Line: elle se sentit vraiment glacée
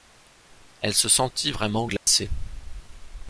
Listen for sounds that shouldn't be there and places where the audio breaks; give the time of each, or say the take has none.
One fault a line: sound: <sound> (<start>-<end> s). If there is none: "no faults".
sound: dropout (2.0-2.1 s)